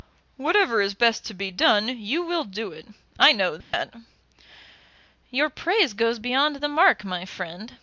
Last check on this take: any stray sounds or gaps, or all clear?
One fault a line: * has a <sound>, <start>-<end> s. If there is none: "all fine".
* has a dropout, 3.6-3.7 s